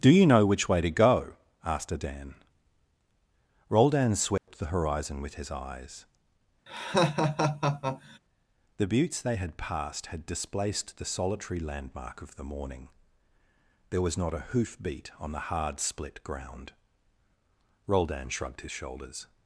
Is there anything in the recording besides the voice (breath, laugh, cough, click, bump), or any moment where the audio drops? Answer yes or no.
yes